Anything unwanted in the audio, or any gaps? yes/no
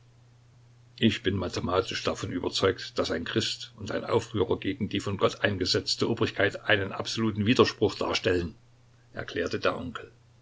no